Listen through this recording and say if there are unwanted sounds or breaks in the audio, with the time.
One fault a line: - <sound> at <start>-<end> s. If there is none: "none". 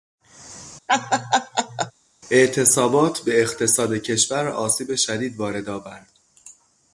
- laugh at 0.9-1.9 s